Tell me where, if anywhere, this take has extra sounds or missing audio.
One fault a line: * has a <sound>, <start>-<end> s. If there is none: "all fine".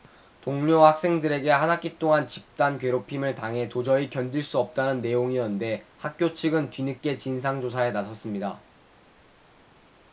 all fine